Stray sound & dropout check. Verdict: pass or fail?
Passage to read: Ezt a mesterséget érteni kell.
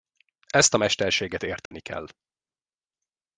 fail